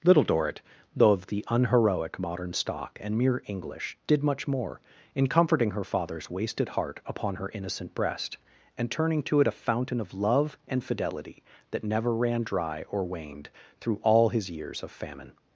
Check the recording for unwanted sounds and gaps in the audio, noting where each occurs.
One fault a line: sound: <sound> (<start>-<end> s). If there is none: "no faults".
no faults